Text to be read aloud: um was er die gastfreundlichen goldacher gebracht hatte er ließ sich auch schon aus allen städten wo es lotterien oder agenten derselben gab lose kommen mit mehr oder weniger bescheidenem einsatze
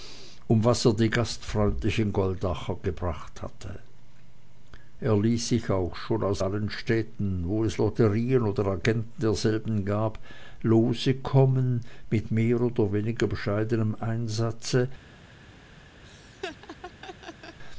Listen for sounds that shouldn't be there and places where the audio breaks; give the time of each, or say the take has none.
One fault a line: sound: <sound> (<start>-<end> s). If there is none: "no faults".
sound: laugh (16.0-17.6 s)